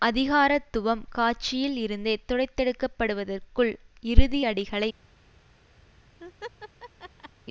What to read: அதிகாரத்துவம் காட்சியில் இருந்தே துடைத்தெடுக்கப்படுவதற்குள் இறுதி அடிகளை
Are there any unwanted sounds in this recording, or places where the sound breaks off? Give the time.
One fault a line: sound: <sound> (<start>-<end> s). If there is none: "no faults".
sound: laugh (6.2-7.3 s)